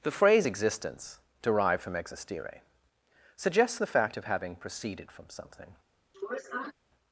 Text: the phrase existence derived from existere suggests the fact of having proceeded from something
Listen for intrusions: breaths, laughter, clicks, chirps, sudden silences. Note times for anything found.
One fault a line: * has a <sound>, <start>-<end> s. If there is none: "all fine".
* has a sniff, 6.1-6.7 s